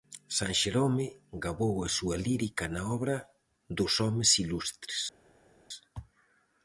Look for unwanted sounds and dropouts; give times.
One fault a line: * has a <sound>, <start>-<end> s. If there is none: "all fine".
all fine